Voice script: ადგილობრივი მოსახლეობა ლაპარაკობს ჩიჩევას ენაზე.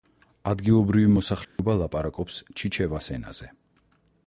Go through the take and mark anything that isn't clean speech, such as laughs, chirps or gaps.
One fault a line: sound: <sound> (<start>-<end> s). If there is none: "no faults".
sound: dropout (1.4-1.6 s)